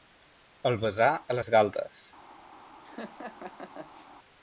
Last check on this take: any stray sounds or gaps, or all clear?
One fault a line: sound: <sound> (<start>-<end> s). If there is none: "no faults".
sound: laugh (2.8-4.1 s)